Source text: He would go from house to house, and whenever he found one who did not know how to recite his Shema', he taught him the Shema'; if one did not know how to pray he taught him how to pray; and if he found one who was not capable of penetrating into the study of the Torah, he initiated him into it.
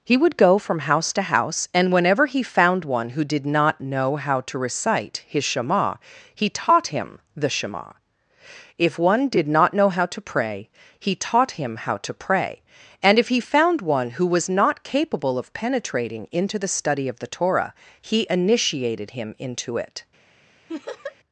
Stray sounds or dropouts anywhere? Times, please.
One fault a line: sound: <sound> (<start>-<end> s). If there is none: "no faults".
sound: laugh (20.7-21.2 s)